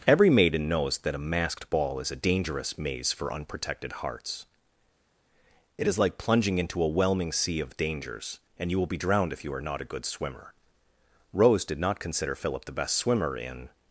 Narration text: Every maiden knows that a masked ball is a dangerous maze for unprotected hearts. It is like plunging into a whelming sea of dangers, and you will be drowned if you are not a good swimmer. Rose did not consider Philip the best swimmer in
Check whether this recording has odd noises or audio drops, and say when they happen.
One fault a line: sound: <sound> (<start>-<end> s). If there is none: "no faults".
no faults